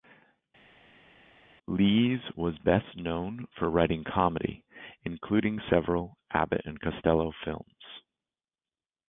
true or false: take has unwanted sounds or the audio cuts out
false